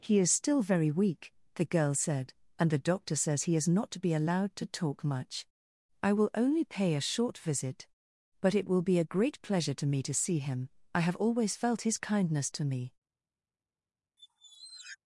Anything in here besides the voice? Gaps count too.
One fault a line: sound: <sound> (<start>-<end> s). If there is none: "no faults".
sound: squeak (14.2-15.0 s)